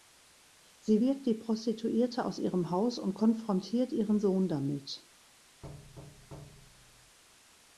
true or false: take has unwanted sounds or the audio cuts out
true